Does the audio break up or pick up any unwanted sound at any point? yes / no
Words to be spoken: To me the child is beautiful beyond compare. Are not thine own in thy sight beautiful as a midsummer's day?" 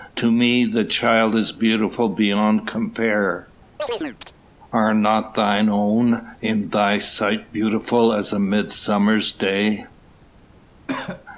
yes